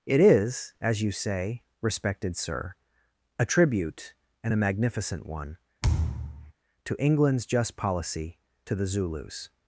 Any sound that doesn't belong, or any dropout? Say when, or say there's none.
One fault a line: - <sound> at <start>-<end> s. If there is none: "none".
- thud at 5.8-6.5 s